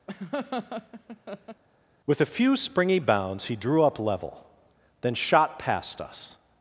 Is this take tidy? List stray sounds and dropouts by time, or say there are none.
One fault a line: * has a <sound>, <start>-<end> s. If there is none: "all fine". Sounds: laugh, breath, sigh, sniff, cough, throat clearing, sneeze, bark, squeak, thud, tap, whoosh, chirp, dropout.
* has a laugh, 0.1-1.6 s